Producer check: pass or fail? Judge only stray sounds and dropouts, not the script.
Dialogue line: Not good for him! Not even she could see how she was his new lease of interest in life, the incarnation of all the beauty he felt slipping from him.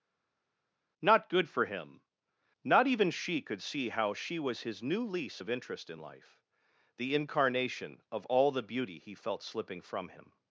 pass